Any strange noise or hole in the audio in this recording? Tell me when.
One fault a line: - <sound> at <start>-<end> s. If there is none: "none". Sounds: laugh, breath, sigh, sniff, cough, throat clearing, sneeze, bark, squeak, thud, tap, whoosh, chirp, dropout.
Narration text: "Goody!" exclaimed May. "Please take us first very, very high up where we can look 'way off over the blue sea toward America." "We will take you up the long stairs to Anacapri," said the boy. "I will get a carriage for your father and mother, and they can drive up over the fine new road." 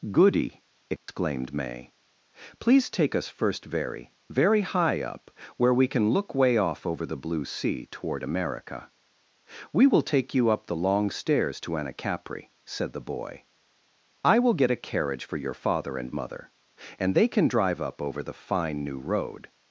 - dropout at 1.0-1.1 s